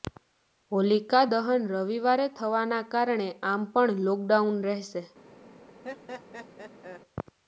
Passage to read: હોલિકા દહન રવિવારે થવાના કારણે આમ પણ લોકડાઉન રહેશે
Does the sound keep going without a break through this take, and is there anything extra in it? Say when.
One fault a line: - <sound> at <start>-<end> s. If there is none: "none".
- laugh at 5.8-7.0 s